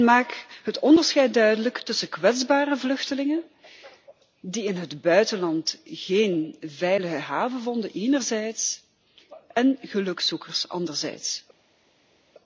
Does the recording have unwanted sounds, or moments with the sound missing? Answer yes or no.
no